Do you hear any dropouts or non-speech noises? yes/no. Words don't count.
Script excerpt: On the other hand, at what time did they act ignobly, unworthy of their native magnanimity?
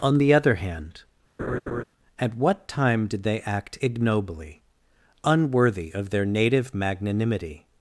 yes